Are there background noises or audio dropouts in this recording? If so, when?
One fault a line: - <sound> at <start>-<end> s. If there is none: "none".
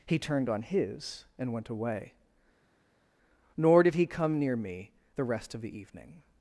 none